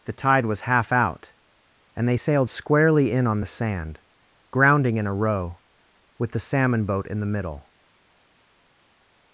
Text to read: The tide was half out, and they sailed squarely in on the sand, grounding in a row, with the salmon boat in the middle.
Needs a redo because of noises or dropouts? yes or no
no